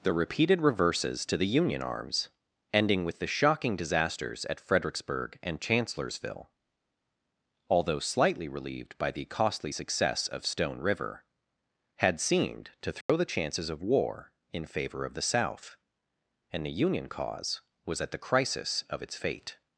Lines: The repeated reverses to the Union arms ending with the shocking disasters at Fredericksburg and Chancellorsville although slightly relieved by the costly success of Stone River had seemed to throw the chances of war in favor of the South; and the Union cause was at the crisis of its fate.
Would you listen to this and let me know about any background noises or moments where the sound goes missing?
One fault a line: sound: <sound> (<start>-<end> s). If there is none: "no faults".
sound: dropout (13.0-13.1 s)